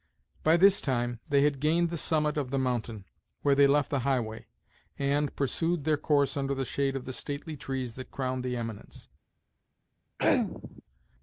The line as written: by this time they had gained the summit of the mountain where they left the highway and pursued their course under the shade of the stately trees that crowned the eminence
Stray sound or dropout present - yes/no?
yes